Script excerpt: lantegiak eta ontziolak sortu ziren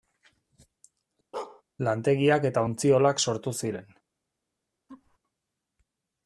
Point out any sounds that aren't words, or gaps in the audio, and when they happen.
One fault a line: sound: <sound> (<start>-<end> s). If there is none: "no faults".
sound: bark (1.3-1.6 s)
sound: laugh (4.9-5.2 s)